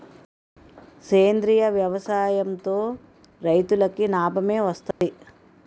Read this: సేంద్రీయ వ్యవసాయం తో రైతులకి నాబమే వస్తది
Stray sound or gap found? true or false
true